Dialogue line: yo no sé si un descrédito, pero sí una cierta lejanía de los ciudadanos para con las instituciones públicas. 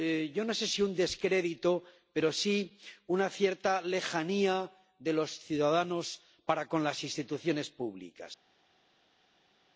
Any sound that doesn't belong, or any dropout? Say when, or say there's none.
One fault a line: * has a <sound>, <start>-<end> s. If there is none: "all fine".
all fine